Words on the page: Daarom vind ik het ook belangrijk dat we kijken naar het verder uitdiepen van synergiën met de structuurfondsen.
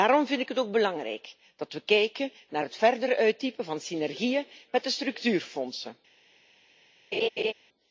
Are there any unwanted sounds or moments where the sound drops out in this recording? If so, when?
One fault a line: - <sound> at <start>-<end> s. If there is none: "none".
- laugh at 7.1-7.5 s